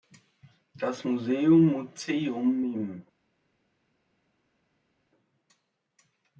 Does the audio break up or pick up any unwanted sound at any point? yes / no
no